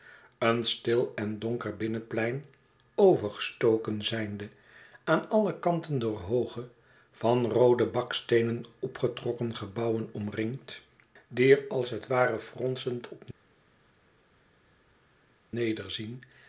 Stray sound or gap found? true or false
false